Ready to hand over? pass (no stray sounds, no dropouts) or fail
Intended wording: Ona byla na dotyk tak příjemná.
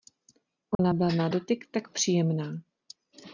fail